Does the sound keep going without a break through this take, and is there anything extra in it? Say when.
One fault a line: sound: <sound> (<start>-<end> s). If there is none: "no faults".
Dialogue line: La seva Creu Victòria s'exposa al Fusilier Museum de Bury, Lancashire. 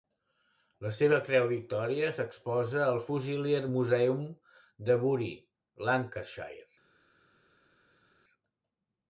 no faults